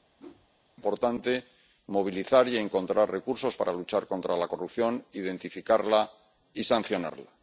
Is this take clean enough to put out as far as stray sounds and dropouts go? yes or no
no